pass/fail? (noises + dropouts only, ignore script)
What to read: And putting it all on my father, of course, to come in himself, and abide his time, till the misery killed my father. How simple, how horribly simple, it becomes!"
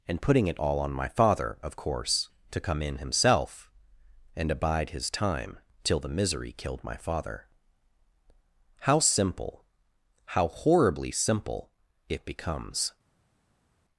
pass